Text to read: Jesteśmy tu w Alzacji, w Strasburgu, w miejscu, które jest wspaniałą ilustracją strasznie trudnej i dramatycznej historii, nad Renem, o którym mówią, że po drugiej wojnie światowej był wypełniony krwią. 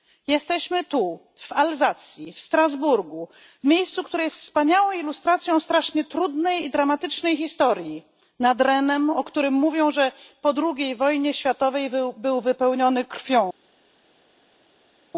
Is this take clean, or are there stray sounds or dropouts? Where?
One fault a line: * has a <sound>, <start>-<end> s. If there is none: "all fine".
all fine